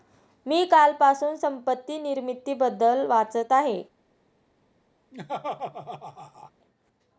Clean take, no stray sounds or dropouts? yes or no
no